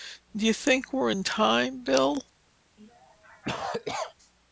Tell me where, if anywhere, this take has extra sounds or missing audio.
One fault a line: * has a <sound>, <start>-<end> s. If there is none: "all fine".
* has a cough, 2.8-4.1 s